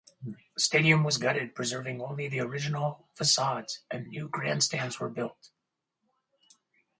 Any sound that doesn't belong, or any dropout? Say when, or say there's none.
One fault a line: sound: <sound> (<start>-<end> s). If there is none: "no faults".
no faults